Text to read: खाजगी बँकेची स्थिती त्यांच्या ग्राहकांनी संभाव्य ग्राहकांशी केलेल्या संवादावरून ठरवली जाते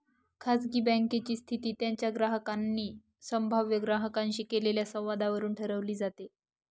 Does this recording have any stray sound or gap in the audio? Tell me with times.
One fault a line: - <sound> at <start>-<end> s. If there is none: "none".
none